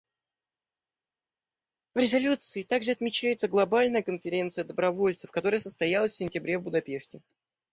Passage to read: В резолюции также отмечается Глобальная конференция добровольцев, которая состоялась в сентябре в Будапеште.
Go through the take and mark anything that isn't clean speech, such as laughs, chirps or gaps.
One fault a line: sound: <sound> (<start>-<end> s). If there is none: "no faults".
no faults